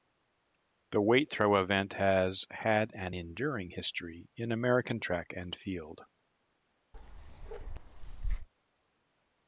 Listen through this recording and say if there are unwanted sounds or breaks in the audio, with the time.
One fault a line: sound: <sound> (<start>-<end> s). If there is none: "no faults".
sound: bark (6.9-8.5 s)